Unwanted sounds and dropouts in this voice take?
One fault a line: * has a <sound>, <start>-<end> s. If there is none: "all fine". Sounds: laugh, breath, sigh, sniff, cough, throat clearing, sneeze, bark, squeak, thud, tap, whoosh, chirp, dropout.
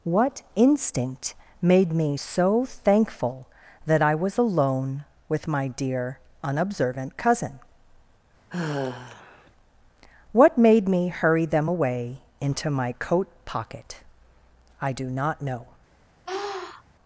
* has a sigh, 8.5-9.5 s
* has a sniff, 16.3-16.8 s